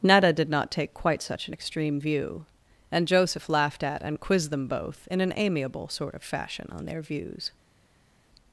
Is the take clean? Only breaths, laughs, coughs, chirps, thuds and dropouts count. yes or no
yes